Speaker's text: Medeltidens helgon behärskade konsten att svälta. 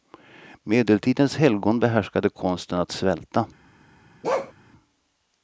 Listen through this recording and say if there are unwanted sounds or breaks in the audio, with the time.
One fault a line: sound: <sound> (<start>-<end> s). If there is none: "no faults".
sound: bark (4.2-4.5 s)